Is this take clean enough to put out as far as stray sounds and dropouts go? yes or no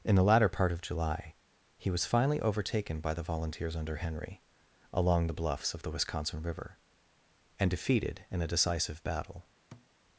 no